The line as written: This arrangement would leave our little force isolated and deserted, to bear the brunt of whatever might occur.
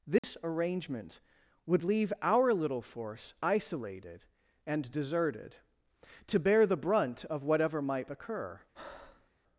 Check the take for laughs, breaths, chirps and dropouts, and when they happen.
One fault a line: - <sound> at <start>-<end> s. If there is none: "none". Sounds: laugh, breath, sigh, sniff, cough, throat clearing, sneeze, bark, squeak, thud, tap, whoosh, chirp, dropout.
- dropout at 0.2-0.2 s
- breath at 8.7-9.3 s